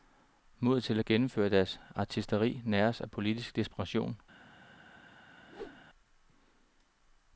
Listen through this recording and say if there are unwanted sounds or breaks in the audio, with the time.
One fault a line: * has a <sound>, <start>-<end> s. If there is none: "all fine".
* has a whoosh, 5.5-5.8 s